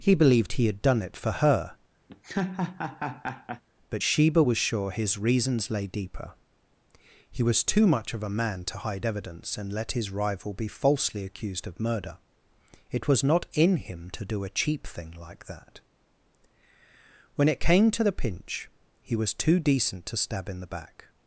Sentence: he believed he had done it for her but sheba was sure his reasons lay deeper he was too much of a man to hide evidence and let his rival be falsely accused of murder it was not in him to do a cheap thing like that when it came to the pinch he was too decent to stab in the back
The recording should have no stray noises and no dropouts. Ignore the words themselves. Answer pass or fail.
fail